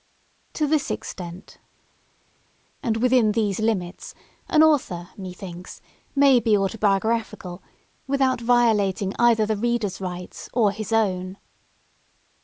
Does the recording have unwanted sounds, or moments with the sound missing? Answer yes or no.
no